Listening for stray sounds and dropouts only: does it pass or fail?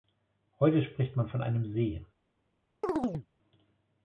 fail